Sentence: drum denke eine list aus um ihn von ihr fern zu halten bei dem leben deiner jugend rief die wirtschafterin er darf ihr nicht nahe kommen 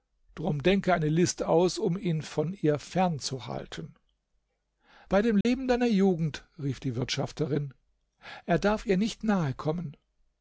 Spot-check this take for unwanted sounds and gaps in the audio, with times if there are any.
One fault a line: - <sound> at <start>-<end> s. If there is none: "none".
- dropout at 5.4-5.5 s